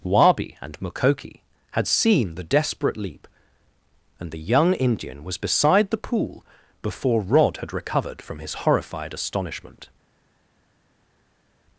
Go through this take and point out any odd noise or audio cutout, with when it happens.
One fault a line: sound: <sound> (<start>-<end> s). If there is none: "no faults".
no faults